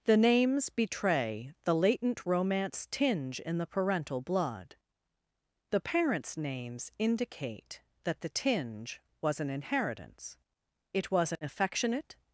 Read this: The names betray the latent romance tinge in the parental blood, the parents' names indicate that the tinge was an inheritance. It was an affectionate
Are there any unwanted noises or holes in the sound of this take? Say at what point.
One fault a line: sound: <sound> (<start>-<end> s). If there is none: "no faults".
no faults